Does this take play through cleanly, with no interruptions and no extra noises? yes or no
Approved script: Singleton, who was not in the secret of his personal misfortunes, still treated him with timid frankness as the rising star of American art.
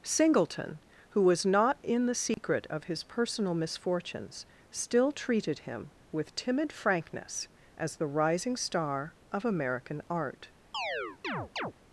no